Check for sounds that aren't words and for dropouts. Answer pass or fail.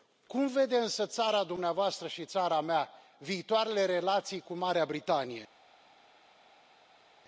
pass